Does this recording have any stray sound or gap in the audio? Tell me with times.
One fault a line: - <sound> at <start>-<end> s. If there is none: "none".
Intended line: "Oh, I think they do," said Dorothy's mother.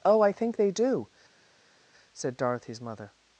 none